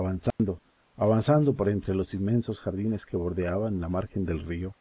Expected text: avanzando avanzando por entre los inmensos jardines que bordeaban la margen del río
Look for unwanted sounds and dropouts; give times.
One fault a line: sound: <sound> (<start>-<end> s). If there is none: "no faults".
sound: dropout (0.3-0.4 s)